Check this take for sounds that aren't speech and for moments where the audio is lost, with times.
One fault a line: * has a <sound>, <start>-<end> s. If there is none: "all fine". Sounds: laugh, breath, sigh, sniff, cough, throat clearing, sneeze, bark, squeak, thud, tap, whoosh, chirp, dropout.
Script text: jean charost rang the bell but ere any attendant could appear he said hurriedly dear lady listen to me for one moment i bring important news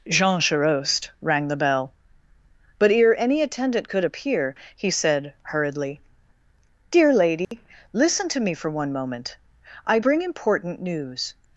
* has a dropout, 7.4-7.5 s